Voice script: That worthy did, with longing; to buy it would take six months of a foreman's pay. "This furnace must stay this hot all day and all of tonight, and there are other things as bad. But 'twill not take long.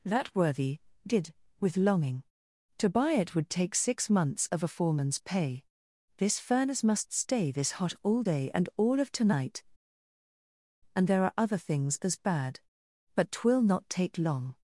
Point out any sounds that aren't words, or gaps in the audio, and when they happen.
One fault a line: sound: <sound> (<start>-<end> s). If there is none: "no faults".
no faults